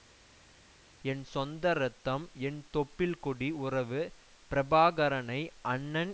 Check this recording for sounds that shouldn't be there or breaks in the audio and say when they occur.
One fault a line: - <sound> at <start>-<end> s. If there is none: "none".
none